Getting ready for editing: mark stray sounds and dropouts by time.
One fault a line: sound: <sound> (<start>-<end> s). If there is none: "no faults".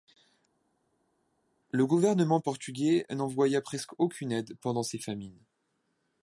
no faults